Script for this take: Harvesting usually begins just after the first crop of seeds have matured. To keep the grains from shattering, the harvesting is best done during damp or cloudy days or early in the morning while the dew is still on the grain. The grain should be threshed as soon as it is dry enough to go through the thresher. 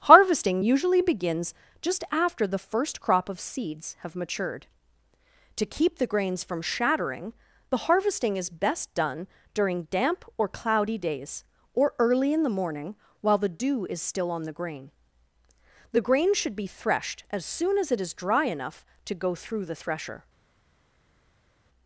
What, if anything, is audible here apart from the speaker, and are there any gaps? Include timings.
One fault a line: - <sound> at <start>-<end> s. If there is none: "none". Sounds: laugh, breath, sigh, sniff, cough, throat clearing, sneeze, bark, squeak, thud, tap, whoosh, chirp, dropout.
none